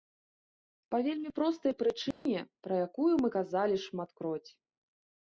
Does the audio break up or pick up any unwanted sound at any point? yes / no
yes